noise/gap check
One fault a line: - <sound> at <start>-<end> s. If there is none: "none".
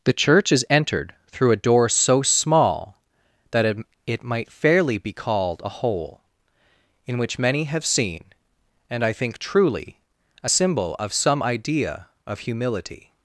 none